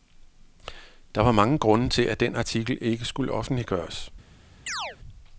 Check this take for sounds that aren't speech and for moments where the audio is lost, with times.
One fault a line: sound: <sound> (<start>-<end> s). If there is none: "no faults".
sound: chirp (4.7-5.0 s)